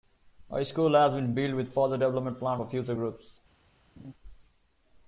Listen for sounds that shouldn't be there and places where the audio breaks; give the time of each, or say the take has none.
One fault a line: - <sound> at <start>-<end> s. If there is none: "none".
- laugh at 4.0-4.1 s